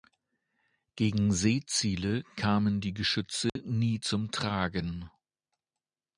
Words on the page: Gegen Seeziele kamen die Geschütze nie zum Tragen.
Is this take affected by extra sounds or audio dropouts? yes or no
yes